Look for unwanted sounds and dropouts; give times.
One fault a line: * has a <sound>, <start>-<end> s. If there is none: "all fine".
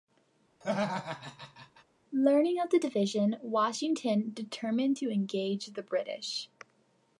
* has a laugh, 0.6-1.8 s